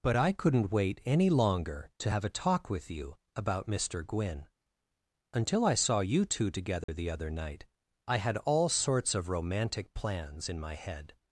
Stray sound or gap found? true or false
true